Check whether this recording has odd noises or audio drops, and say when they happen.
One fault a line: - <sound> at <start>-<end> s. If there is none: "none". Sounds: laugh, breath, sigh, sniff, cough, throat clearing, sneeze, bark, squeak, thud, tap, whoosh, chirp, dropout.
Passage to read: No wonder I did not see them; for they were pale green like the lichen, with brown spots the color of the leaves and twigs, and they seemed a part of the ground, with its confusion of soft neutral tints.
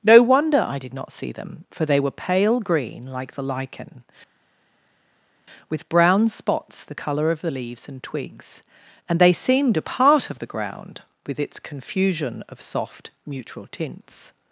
none